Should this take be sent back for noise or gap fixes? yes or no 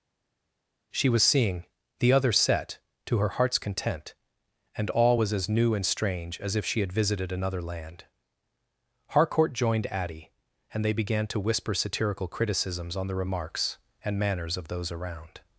no